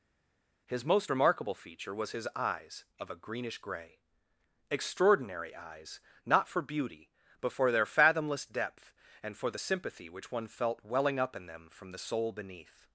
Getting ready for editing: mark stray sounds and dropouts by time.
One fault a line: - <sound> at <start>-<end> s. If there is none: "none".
none